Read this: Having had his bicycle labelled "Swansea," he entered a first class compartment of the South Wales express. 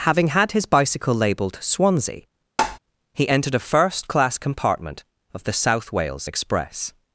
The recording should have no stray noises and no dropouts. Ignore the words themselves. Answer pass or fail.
fail